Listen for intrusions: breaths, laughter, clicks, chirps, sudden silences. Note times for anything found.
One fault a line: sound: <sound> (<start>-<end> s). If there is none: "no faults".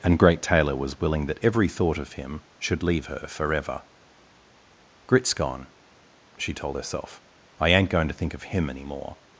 no faults